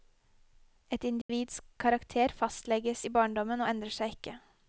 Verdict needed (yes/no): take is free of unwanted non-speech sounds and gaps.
no